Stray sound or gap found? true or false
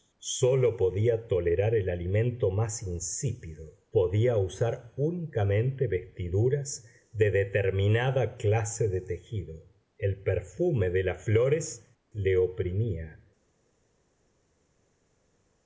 false